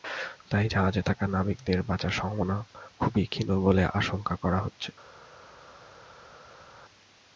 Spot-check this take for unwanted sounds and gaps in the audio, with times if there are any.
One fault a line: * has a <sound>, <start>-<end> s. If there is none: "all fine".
all fine